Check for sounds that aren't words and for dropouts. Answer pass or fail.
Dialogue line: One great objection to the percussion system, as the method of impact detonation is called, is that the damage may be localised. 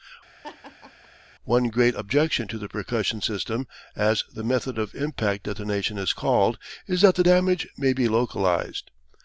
fail